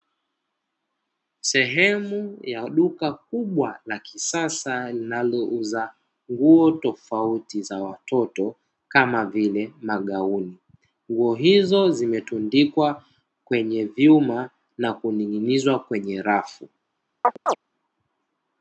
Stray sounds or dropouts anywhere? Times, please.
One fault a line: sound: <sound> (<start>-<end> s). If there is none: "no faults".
sound: chirp (17.2-17.6 s)